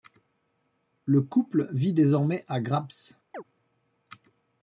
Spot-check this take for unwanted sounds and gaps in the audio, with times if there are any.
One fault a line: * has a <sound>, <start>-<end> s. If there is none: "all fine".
* has a chirp, 3.3-3.4 s